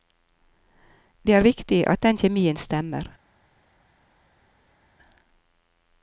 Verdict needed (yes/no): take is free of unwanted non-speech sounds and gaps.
yes